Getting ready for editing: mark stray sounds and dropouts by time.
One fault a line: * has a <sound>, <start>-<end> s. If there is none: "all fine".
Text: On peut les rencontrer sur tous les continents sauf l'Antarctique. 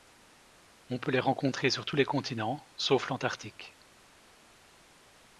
all fine